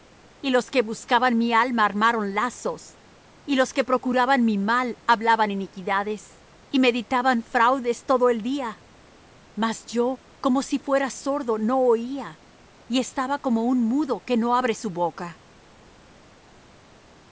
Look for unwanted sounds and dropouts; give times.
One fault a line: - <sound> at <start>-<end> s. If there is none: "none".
none